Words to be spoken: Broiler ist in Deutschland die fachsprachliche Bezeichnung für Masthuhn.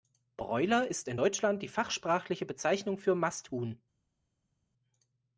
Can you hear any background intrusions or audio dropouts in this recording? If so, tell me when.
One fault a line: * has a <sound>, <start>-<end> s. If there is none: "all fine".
all fine